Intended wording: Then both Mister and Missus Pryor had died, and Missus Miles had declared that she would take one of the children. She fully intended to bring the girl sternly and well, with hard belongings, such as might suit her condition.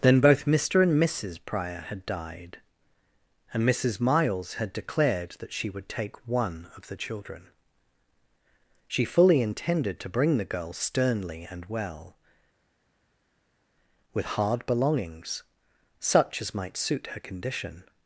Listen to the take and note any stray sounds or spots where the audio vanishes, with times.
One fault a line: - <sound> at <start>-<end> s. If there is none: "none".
none